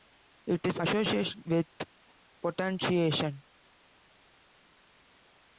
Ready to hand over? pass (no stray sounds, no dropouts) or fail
pass